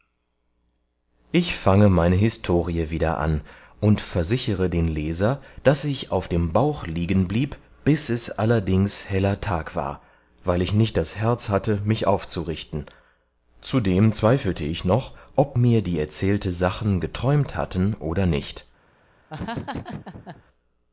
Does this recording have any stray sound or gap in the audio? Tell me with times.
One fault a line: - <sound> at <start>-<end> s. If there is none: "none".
- laugh at 19.3-20.4 s